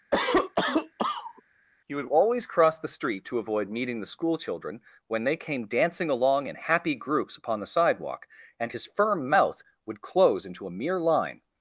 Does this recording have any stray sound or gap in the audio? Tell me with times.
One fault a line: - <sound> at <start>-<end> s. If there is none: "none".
- cough at 0.1-1.4 s